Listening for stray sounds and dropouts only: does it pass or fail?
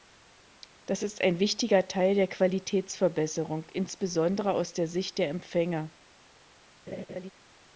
fail